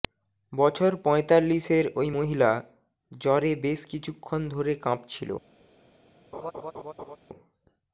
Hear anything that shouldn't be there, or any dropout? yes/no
yes